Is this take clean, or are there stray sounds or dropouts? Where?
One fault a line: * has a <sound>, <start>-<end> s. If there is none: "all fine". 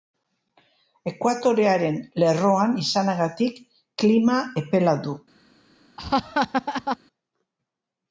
* has a laugh, 6.0-7.0 s